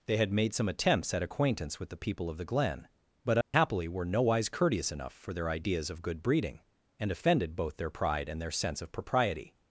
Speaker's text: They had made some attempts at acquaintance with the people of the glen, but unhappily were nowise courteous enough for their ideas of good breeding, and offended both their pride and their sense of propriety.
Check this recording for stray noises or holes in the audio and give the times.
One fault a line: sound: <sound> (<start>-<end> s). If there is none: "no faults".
sound: dropout (3.4-3.5 s)